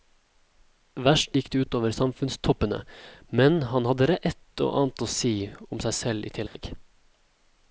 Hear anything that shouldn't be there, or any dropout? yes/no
yes